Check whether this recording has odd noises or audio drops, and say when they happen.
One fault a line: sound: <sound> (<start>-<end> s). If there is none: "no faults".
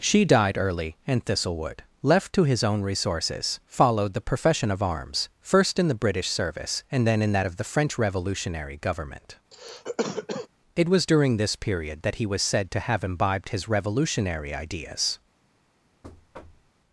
sound: cough (9.5-10.5 s)
sound: thud (16.0-16.7 s)